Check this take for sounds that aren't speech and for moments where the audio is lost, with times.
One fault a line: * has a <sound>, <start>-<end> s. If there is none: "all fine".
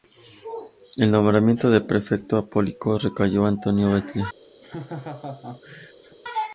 * has a laugh, 4.6-6.2 s